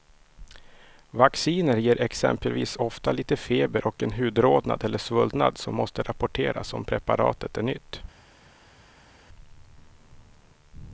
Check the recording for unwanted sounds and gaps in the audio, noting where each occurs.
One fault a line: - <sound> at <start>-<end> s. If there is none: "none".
none